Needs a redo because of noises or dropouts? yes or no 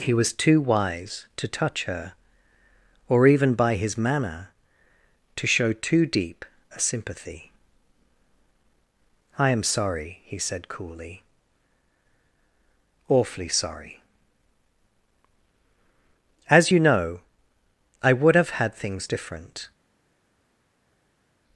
no